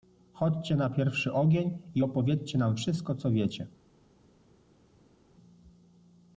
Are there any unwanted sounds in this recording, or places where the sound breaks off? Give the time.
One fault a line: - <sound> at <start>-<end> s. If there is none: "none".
none